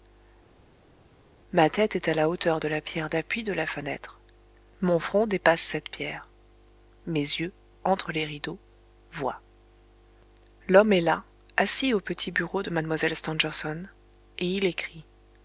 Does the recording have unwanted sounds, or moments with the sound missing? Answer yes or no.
no